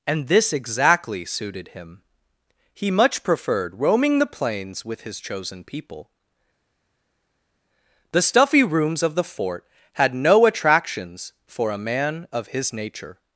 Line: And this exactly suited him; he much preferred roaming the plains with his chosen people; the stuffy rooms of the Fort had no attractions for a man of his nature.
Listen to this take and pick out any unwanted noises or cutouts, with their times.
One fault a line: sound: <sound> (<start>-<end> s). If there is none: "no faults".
no faults